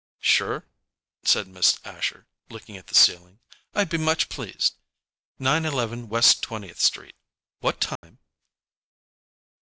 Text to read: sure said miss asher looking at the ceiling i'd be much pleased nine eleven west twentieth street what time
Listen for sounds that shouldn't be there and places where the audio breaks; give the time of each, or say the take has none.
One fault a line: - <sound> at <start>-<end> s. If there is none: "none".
- dropout at 8.0-8.0 s